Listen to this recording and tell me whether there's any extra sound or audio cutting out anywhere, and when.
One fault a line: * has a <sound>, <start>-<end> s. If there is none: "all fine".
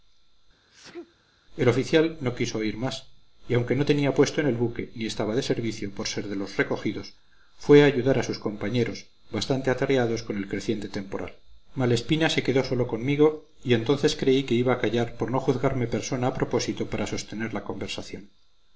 * has a sneeze, 0.7-1.2 s